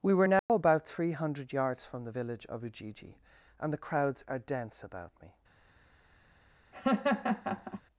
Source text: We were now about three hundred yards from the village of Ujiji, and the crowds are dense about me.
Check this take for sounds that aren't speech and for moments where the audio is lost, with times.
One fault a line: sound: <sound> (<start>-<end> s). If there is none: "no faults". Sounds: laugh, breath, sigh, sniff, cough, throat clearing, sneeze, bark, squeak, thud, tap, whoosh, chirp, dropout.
sound: dropout (0.4-0.5 s)
sound: laugh (6.7-7.8 s)